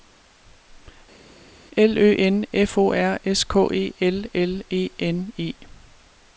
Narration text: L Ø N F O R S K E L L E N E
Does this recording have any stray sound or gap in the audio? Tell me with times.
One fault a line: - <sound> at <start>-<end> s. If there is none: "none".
none